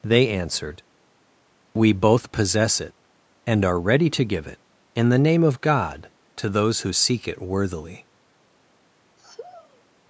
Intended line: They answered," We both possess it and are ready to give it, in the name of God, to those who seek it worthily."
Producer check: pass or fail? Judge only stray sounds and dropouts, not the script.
fail